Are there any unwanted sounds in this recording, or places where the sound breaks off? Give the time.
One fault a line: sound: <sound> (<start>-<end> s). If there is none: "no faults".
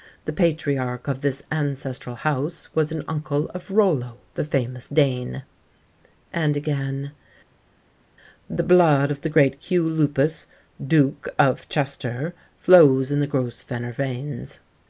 no faults